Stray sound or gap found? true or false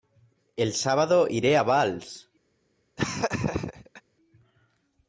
true